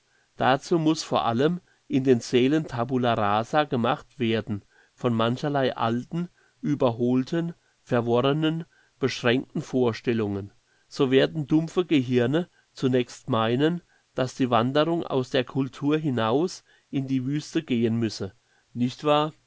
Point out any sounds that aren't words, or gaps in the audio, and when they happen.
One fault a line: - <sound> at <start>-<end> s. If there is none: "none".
none